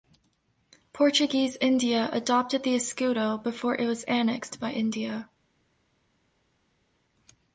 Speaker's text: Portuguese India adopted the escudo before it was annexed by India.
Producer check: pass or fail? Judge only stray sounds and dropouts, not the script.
pass